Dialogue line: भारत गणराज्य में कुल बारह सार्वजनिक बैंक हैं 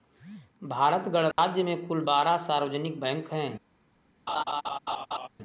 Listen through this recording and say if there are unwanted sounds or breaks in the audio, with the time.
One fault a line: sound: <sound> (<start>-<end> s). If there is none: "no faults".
sound: dropout (1.3-1.4 s)
sound: laugh (4.3-5.3 s)